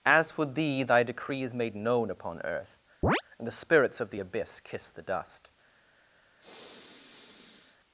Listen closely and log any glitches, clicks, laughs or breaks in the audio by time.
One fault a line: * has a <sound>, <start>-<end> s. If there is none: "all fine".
* has a chirp, 3.0-3.2 s
* has a sniff, 6.4-7.8 s